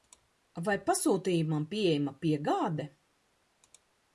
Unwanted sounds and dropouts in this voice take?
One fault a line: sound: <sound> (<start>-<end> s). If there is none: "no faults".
no faults